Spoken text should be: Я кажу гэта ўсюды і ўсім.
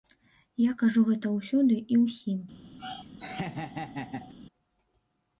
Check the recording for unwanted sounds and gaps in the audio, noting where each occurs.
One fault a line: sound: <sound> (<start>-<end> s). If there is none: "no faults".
sound: laugh (2.8-4.3 s)